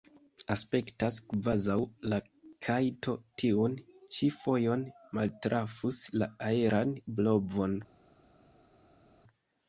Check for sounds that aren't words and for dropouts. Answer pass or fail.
pass